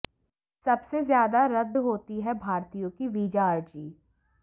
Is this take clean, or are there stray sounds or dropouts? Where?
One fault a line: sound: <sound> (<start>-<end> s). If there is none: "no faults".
no faults